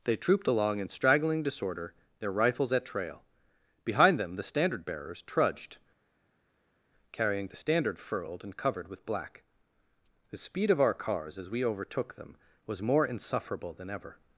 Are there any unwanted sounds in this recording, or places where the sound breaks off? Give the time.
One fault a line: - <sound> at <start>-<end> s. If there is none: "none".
none